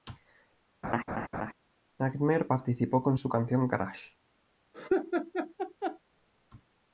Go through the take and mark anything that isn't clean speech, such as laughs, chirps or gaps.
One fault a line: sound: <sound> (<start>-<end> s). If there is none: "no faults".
sound: laugh (0.8-1.5 s)
sound: laugh (4.7-6.0 s)